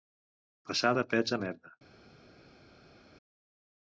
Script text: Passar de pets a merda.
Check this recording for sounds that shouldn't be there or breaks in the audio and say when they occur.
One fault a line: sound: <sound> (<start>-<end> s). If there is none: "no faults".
no faults